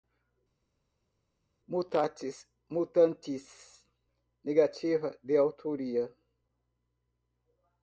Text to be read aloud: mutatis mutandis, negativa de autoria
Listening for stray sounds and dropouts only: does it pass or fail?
pass